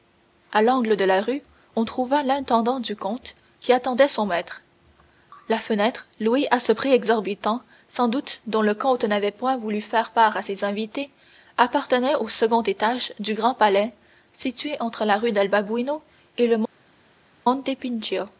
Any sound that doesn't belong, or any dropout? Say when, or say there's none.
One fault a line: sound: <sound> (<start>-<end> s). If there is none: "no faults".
no faults